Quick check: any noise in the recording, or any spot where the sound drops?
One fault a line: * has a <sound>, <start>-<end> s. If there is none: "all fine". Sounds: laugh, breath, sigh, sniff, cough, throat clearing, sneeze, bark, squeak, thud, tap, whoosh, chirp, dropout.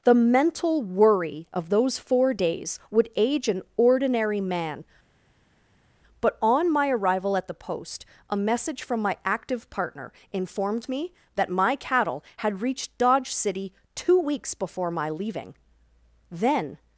all fine